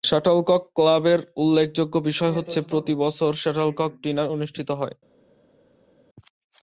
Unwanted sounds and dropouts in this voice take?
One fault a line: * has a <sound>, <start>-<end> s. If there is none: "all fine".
all fine